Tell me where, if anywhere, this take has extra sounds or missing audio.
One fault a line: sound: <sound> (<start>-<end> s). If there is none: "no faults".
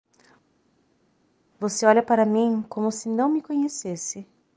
no faults